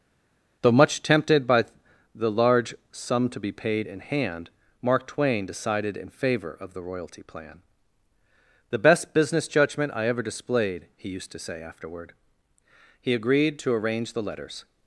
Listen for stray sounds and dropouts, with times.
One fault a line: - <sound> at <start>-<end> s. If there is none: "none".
none